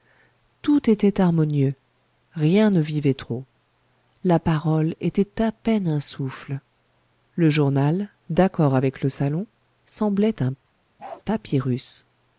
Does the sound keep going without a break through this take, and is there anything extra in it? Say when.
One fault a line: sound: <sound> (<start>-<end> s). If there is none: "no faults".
sound: bark (11.0-11.2 s)